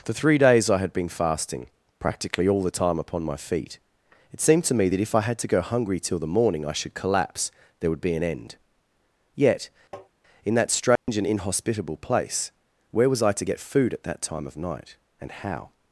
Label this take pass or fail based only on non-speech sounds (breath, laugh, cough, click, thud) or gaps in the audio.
fail